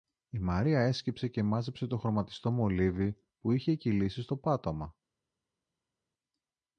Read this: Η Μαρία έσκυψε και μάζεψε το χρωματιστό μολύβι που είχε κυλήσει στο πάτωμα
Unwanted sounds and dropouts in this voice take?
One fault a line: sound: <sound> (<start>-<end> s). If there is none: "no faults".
no faults